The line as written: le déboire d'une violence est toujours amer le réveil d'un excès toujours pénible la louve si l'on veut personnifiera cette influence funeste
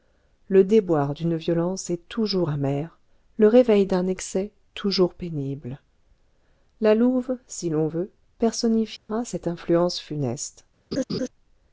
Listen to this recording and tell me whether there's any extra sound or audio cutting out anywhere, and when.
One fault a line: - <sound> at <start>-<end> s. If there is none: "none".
- dropout at 9.0-9.1 s
- laugh at 10.9-11.3 s